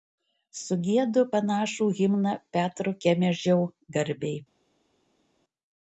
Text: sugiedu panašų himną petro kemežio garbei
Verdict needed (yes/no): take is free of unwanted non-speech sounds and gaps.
yes